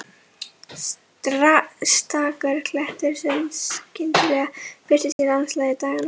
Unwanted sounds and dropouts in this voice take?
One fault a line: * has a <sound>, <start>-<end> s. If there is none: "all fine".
* has a dropout, 5.1-5.2 s